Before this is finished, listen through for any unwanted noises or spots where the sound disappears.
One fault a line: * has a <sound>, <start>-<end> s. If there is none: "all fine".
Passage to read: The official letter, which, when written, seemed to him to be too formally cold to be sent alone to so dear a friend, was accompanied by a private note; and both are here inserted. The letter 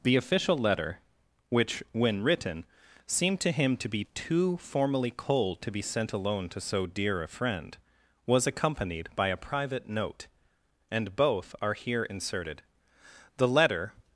all fine